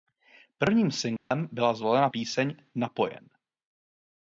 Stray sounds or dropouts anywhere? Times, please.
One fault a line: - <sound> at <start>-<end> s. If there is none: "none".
- dropout at 1.2-1.3 s